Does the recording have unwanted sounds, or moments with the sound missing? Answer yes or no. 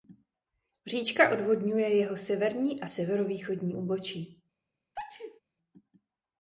yes